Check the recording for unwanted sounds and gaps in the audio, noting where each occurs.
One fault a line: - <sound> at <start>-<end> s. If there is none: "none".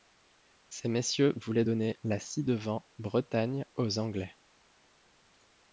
none